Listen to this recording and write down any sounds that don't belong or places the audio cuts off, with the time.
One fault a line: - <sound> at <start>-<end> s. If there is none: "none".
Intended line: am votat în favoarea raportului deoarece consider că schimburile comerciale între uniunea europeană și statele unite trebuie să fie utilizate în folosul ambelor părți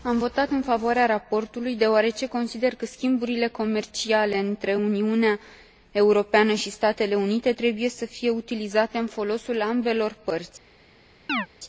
- chirp at 11.3-11.5 s